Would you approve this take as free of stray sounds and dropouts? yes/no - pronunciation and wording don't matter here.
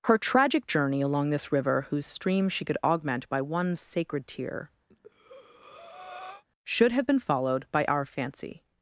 no